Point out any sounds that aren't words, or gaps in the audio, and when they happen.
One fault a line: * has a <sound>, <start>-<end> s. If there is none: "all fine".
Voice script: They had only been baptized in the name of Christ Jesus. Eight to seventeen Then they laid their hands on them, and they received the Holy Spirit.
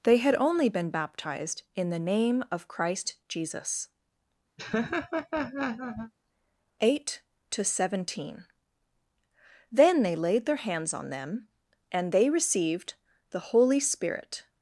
* has a laugh, 4.6-6.1 s